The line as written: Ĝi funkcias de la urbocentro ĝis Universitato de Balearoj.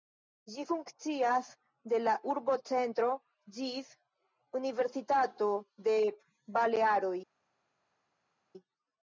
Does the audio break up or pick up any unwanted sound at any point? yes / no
no